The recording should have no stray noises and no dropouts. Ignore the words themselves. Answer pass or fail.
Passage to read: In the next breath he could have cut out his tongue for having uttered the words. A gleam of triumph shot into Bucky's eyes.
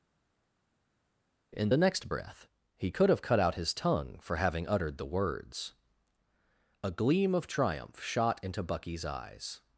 pass